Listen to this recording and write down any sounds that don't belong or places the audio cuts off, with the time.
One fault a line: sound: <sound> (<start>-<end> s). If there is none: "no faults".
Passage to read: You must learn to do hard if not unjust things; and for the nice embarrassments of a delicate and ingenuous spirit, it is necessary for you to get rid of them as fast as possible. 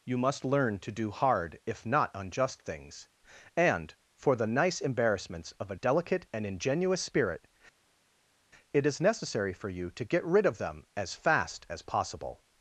no faults